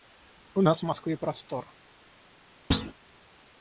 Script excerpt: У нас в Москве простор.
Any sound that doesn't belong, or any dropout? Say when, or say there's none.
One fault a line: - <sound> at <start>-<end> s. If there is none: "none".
- thud at 2.7-2.9 s